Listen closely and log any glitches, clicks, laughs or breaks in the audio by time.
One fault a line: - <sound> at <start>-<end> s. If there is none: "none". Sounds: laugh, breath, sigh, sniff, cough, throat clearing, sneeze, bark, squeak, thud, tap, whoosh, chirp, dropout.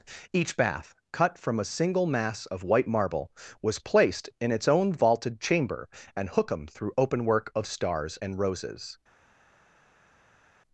none